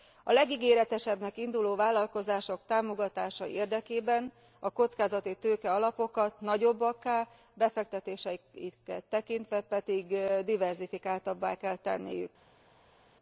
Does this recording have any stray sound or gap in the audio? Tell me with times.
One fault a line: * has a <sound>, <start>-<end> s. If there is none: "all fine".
all fine